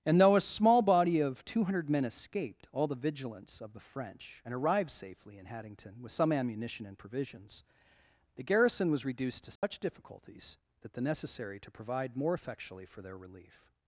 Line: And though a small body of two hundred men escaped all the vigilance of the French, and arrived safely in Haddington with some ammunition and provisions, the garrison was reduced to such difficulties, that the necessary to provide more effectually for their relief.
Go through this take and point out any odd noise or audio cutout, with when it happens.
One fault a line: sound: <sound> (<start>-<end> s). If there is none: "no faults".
sound: dropout (9.6-9.6 s)